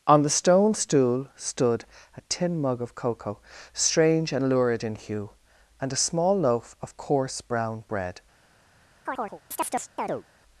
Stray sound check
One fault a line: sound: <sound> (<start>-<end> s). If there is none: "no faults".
sound: chirp (9.1-10.2 s)